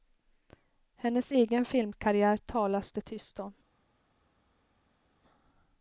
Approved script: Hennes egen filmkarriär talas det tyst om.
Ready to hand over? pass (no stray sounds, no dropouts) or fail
pass